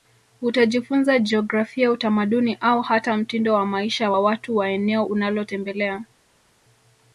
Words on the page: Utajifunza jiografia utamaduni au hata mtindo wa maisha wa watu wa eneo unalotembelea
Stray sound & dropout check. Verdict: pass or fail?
pass